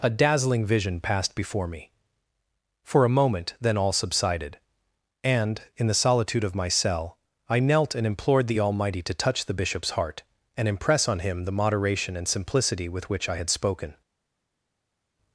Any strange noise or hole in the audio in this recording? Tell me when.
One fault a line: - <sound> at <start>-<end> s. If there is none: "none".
none